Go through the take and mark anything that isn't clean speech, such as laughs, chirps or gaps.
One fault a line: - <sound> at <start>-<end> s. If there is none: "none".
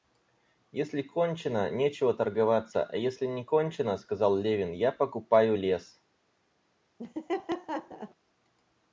- laugh at 7.0-8.1 s